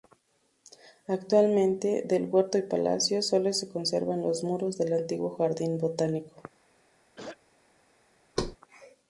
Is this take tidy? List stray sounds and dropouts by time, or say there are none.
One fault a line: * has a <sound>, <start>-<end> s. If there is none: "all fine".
* has a throat clearing, 7.2-7.4 s
* has a thud, 8.4-8.6 s